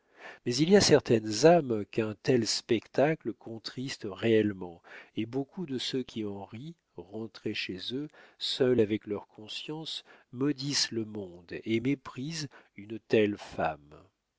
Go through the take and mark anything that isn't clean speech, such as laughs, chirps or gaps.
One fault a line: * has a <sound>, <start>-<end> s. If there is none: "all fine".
all fine